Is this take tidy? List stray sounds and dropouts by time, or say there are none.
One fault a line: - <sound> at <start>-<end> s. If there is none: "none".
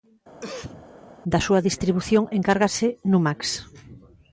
- cough at 0.4-0.9 s